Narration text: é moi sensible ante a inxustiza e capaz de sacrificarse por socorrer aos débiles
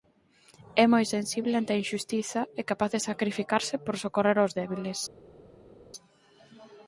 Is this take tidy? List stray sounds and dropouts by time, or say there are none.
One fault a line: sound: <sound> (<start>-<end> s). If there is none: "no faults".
no faults